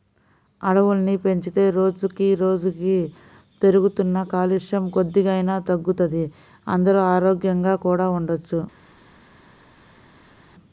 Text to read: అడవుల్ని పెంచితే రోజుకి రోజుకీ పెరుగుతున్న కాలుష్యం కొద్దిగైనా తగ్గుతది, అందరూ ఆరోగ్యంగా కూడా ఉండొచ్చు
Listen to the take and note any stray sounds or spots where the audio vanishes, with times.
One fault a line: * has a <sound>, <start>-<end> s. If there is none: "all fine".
all fine